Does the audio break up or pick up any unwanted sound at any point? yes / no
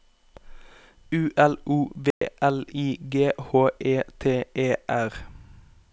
yes